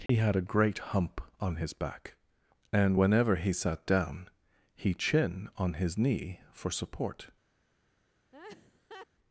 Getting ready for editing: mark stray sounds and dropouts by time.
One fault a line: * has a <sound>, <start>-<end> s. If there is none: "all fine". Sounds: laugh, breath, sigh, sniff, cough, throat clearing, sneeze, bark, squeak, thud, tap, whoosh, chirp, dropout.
* has a dropout, 0.1-0.1 s
* has a laugh, 8.3-9.1 s